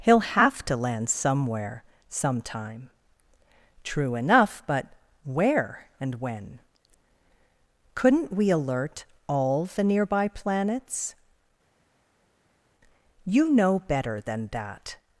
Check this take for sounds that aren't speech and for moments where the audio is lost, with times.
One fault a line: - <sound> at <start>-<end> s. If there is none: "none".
none